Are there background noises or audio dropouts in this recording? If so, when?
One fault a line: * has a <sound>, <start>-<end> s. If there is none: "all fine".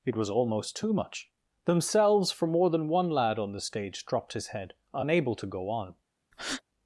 * has a breath, 6.3-6.6 s